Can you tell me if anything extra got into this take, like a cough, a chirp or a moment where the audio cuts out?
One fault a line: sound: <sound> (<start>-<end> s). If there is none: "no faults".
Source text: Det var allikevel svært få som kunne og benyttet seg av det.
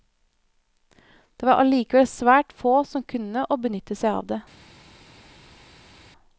no faults